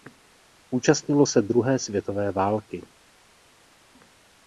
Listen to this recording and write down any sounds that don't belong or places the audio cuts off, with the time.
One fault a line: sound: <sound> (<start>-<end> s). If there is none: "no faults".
no faults